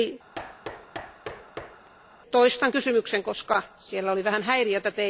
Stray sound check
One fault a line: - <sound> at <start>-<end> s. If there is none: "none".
- thud at 0.3-1.9 s